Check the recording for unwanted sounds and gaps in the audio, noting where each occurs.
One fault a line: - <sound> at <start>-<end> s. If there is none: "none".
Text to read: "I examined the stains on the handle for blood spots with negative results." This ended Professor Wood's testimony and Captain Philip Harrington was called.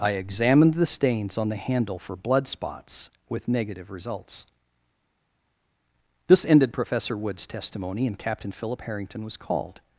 none